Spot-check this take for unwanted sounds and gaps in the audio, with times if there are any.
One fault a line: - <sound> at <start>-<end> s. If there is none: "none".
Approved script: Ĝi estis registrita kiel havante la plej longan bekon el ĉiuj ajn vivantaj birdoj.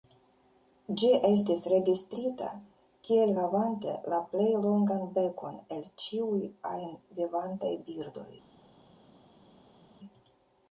none